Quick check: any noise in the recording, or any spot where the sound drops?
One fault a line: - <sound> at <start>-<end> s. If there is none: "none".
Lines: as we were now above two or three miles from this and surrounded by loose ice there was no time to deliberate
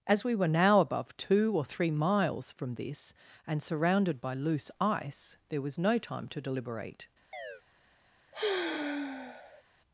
- chirp at 7.3-7.6 s
- sigh at 8.3-9.6 s